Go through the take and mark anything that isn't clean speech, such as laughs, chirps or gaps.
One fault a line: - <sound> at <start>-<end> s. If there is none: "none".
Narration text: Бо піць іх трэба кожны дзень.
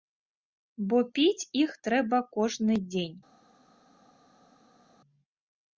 none